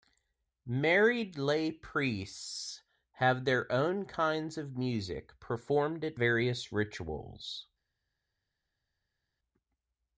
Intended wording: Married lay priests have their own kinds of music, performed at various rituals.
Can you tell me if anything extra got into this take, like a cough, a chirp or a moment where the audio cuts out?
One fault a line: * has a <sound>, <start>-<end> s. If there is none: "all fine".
all fine